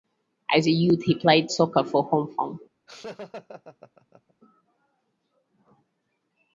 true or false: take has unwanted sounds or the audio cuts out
true